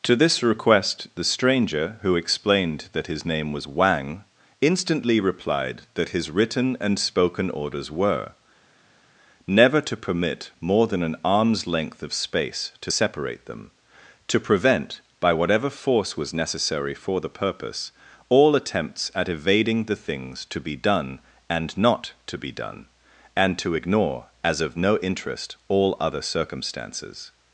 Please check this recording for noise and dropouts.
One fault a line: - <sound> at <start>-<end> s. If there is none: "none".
none